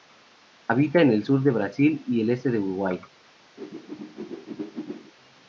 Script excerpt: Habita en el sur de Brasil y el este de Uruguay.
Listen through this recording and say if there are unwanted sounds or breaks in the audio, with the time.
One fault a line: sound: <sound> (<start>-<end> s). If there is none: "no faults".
sound: whoosh (3.6-5.1 s)